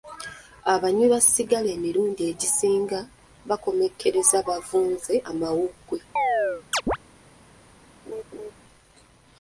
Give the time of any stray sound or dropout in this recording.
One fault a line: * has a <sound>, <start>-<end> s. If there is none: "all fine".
* has a chirp, 6.2-7.0 s
* has a laugh, 8.1-8.5 s